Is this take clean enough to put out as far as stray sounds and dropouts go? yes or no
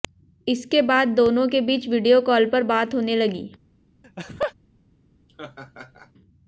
no